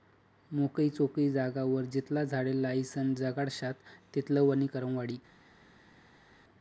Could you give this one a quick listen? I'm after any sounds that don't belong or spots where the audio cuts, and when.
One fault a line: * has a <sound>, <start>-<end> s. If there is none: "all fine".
all fine